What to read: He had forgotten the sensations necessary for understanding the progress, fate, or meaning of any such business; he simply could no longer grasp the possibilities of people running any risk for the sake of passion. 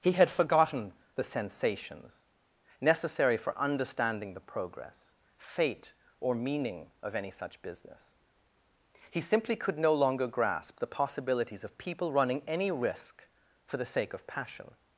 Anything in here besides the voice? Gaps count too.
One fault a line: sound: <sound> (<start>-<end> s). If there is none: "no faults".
no faults